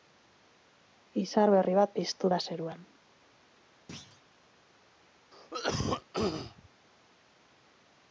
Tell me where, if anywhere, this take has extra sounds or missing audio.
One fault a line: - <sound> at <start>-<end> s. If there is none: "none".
- thud at 3.9-4.2 s
- cough at 5.3-6.7 s